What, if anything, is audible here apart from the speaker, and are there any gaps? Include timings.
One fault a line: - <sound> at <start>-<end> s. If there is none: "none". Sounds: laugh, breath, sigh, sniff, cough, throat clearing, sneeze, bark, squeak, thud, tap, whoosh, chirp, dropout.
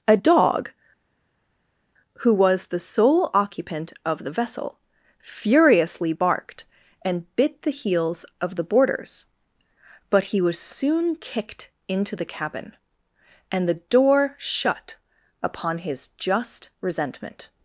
none